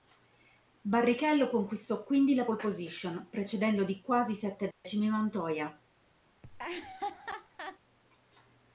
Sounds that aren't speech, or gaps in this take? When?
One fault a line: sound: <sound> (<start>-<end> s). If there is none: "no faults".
sound: dropout (4.7-4.8 s)
sound: laugh (6.4-7.8 s)